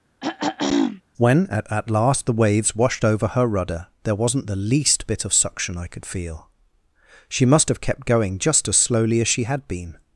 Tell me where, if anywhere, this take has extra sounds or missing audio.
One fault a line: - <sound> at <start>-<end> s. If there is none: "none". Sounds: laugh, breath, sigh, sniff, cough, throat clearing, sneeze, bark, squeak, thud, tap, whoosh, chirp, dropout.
- throat clearing at 0.2-1.0 s